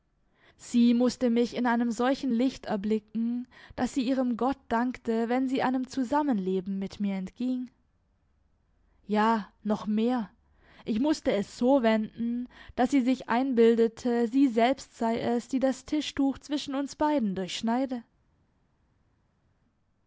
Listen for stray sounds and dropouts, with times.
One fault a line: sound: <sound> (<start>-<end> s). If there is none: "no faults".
no faults